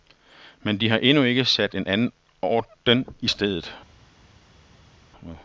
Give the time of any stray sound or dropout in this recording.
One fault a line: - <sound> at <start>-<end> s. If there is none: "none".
none